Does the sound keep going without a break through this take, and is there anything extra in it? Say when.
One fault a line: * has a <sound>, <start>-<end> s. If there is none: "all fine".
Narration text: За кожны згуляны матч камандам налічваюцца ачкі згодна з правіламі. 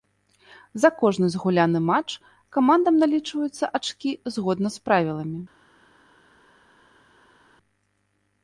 all fine